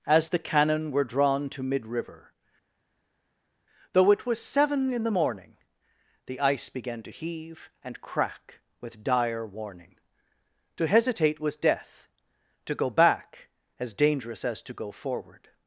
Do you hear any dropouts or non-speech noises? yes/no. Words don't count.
no